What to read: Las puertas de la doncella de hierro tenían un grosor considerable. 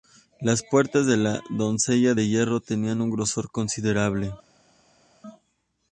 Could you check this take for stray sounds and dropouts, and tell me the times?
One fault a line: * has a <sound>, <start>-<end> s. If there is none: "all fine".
all fine